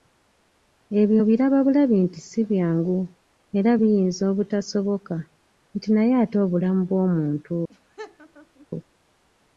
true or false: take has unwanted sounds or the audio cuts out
true